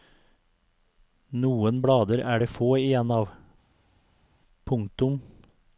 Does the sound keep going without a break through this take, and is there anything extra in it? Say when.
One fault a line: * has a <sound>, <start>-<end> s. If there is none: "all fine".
all fine